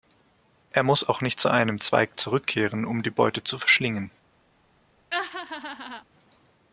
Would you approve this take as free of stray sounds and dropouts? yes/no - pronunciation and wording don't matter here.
no